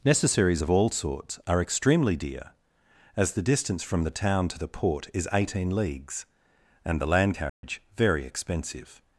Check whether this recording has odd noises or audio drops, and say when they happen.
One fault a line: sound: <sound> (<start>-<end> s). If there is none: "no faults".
sound: dropout (7.5-7.6 s)